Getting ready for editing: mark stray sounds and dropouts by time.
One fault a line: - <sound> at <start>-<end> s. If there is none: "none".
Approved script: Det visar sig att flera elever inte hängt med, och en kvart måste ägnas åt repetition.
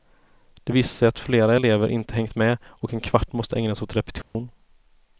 - dropout at 4.2-4.3 s